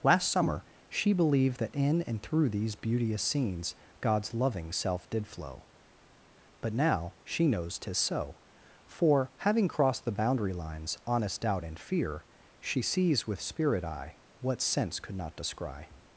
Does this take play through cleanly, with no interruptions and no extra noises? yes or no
yes